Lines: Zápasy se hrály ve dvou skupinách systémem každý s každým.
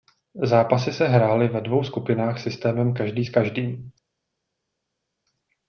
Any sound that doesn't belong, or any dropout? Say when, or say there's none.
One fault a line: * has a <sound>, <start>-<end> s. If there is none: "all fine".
all fine